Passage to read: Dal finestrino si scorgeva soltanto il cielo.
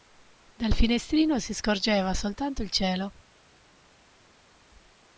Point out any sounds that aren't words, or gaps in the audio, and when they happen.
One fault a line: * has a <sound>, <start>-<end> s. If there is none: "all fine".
all fine